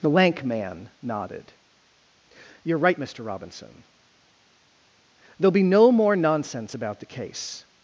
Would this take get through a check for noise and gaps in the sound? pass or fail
pass